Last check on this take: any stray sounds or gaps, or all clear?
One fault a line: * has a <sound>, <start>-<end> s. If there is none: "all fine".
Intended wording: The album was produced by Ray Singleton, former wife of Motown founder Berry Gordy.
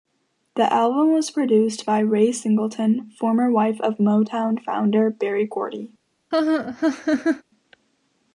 * has a laugh, 6.3-7.4 s